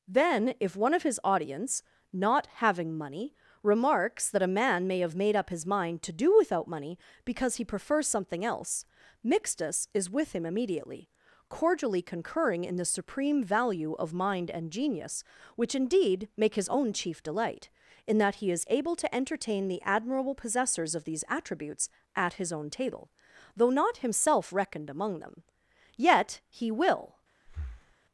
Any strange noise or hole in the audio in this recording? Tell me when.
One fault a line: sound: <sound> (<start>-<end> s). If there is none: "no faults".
sound: breath (27.5-28.0 s)